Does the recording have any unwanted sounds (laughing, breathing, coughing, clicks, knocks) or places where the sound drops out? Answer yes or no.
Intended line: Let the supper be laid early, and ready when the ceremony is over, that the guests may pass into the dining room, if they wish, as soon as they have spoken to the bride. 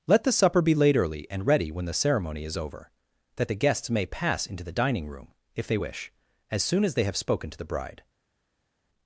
no